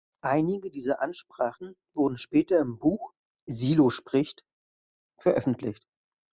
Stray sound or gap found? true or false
false